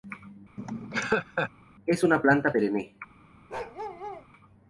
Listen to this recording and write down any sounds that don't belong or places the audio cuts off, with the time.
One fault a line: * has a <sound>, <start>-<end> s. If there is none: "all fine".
* has a laugh, 0.6-1.5 s
* has a bark, 3.5-4.3 s